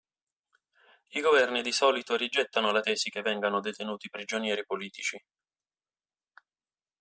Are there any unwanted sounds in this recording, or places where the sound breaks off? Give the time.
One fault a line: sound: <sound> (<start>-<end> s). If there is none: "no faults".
no faults